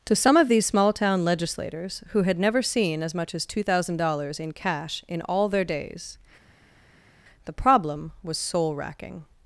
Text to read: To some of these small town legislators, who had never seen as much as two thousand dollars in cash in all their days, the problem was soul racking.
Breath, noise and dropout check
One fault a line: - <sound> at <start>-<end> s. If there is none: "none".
none